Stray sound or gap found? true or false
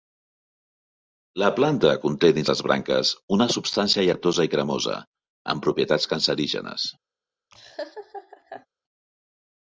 true